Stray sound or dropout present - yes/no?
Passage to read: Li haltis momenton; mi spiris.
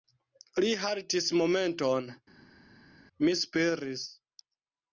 no